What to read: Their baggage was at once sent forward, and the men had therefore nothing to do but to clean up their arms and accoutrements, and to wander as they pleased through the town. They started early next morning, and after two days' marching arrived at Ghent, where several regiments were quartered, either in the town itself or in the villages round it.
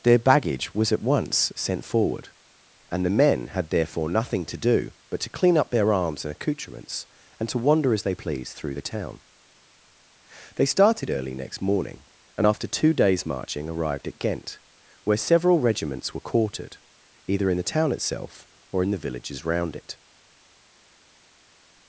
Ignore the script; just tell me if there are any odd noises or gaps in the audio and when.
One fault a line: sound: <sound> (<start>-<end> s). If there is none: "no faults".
no faults